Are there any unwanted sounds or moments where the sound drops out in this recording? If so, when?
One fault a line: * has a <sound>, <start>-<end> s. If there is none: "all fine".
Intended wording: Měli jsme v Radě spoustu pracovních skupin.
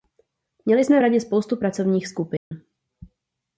* has a dropout, 2.4-2.5 s